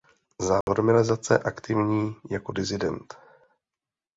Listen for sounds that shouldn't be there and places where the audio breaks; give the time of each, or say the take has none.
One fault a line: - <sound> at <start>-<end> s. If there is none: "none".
- dropout at 0.6-0.7 s